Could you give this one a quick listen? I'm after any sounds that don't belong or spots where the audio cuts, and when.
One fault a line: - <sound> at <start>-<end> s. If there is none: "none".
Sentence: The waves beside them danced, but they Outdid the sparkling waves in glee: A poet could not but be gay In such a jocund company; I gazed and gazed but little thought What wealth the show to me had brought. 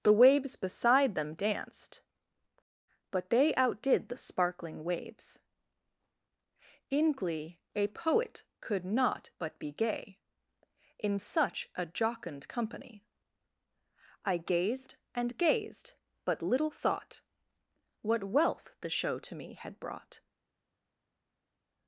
none